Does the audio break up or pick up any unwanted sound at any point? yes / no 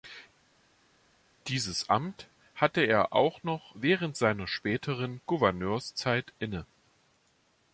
no